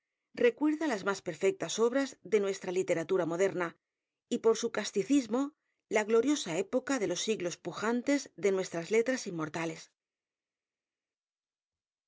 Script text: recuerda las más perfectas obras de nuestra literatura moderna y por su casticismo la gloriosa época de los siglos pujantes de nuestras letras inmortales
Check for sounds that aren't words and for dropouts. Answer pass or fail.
pass